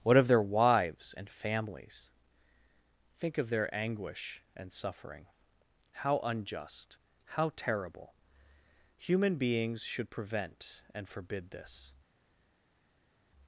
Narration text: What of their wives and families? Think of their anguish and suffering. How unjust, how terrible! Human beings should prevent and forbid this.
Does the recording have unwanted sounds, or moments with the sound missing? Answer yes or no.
no